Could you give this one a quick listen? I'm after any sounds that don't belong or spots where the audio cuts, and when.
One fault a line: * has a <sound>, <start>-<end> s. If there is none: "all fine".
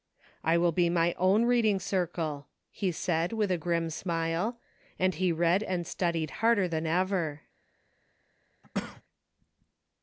* has a cough, 8.6-9.0 s